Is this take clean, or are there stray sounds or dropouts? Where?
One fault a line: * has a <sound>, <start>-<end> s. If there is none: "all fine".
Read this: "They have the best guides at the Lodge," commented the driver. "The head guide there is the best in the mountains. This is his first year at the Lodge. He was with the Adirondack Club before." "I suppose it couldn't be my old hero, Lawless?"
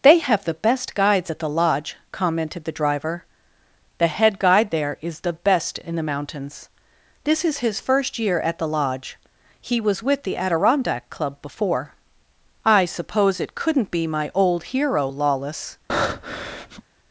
* has a breath, 15.9-16.8 s